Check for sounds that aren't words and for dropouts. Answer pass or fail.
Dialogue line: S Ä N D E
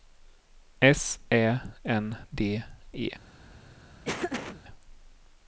fail